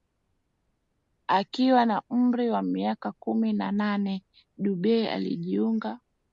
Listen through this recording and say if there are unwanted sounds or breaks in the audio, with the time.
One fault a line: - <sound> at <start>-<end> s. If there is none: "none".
none